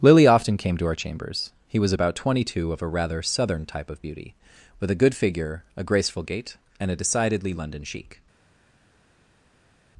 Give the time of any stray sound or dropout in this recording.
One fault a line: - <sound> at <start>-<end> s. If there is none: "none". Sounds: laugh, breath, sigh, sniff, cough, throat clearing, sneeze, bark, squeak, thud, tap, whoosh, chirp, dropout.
none